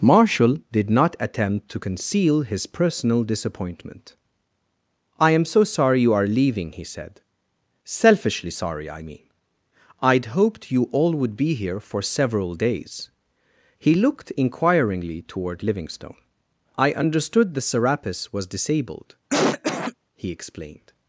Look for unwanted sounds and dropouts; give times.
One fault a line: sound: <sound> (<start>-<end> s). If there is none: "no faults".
sound: cough (19.3-20.0 s)